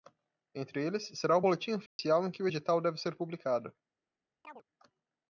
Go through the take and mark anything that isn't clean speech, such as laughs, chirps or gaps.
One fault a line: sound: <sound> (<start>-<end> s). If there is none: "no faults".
sound: dropout (1.9-2.0 s)
sound: chirp (4.4-4.6 s)